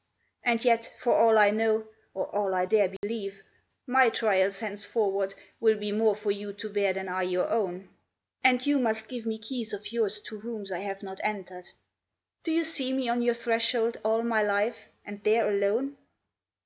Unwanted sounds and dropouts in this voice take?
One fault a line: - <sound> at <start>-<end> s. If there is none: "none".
- dropout at 3.0-3.0 s